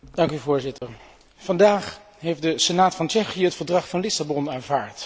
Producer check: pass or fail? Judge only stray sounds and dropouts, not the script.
fail